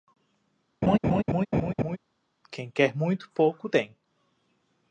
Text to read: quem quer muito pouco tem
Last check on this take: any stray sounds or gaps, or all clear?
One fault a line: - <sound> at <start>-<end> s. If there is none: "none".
- laugh at 0.8-2.0 s